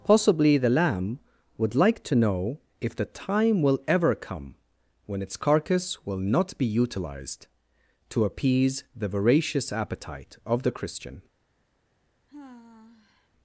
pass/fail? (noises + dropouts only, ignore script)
fail